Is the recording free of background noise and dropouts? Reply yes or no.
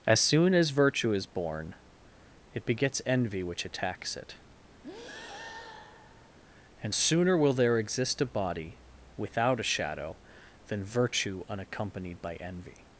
no